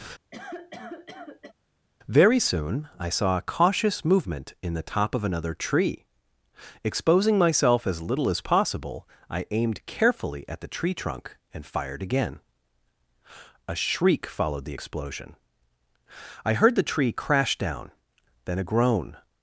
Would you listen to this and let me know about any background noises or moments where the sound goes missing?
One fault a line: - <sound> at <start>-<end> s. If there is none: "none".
- cough at 0.3-1.5 s